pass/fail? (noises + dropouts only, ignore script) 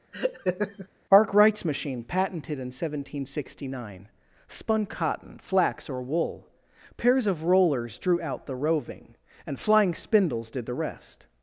fail